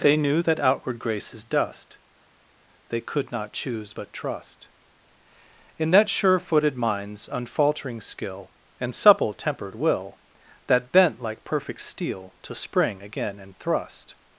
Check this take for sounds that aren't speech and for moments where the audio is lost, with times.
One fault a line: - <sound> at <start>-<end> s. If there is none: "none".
none